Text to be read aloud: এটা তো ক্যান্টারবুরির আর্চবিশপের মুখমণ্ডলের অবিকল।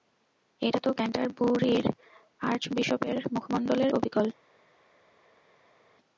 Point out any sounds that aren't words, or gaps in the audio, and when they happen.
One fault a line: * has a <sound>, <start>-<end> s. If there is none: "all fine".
all fine